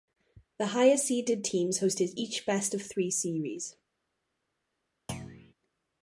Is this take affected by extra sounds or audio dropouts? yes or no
yes